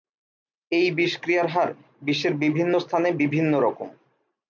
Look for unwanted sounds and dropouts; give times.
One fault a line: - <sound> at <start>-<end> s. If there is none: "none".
none